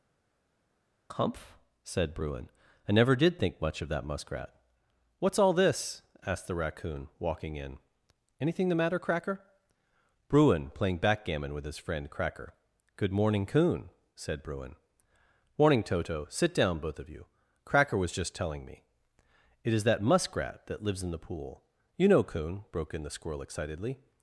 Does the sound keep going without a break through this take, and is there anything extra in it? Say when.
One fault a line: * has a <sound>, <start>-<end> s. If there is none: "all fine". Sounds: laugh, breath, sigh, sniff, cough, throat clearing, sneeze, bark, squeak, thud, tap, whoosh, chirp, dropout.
all fine